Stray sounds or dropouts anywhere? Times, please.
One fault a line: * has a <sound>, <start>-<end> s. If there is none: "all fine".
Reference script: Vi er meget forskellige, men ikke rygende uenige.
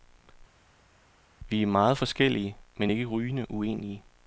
all fine